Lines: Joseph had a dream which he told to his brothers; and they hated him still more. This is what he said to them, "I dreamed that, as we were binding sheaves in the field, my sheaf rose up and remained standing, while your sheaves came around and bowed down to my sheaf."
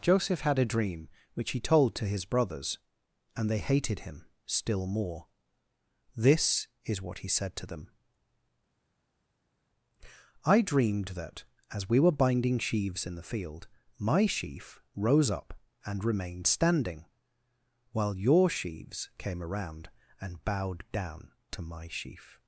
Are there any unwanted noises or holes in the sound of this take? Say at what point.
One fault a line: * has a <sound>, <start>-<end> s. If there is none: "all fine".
all fine